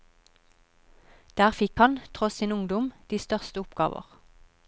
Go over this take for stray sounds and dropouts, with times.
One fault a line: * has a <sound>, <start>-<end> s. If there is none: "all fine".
all fine